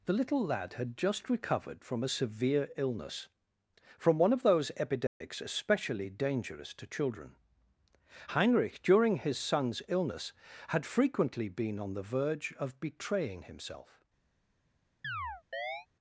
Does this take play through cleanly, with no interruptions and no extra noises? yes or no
no